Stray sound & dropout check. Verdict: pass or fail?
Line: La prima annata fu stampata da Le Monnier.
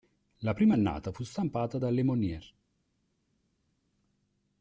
pass